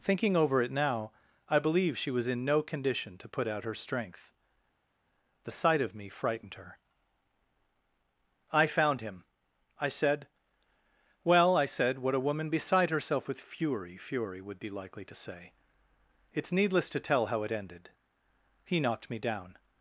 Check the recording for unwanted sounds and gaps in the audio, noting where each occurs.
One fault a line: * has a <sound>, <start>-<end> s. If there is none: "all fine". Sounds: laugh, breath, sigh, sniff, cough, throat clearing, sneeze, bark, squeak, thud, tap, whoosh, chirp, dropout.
all fine